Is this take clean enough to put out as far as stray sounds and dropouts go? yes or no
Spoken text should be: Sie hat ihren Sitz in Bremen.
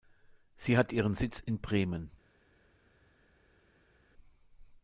yes